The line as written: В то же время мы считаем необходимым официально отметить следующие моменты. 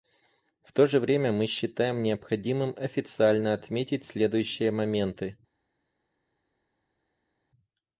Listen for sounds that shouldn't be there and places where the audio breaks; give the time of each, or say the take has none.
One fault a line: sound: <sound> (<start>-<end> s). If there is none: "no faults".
no faults